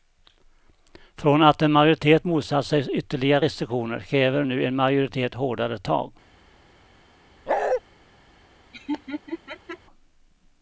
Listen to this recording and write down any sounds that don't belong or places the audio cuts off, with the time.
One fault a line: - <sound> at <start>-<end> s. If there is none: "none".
- bark at 7.5-7.8 s
- laugh at 8.7-9.8 s